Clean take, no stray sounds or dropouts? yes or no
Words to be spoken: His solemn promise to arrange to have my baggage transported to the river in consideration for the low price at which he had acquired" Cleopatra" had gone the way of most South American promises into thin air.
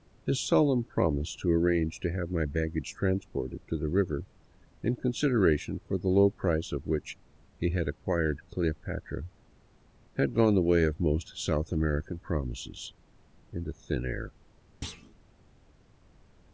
no